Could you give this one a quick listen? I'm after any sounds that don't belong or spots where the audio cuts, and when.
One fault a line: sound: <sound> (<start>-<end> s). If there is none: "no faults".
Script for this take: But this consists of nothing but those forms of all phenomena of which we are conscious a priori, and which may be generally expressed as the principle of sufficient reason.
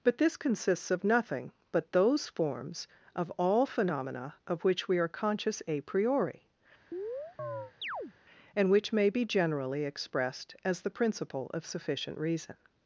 sound: chirp (6.9-8.1 s)